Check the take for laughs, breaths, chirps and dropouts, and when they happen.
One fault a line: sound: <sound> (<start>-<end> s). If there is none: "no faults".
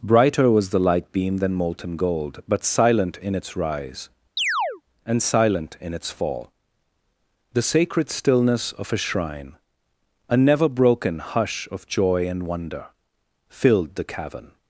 sound: chirp (4.4-4.8 s)